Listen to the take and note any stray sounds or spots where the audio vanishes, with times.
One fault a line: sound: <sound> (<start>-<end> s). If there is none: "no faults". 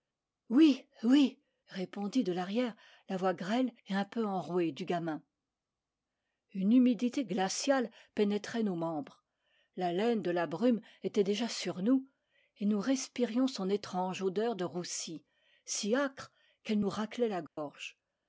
sound: dropout (17.5-17.6 s)